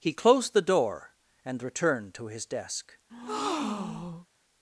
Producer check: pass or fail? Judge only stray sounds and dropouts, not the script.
fail